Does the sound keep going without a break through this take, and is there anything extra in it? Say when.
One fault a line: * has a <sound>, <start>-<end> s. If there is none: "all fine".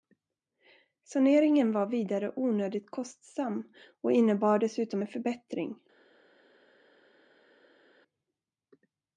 all fine